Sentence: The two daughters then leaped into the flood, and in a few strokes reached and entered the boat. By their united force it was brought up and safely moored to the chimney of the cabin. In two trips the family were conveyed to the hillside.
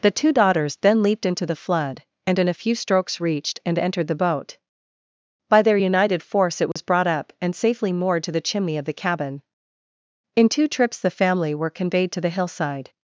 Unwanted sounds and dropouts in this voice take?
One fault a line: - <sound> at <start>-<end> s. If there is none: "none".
- dropout at 6.7-6.8 s